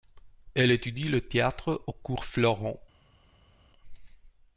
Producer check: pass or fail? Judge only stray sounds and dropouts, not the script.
pass